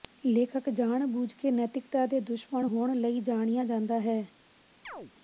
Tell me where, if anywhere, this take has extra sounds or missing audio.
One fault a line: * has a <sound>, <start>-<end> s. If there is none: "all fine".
* has a chirp, 4.8-5.1 s